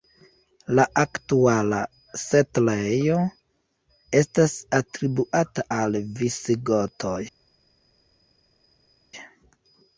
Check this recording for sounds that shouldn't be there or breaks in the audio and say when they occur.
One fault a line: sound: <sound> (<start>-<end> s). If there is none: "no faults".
no faults